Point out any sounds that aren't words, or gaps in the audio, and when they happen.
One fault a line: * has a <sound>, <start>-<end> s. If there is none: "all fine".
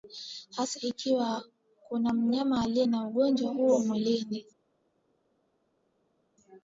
all fine